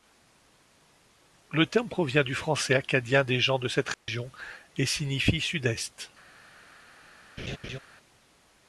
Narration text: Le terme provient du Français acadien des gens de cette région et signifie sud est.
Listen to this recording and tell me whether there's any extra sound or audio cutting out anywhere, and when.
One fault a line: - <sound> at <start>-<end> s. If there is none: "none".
- dropout at 3.9-4.1 s
- laugh at 7.4-7.8 s